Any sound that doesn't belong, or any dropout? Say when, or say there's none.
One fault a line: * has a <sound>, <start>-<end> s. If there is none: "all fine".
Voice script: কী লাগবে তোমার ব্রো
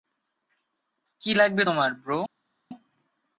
all fine